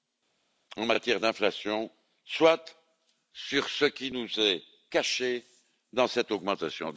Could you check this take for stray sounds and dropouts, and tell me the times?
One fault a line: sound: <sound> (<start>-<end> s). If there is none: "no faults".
no faults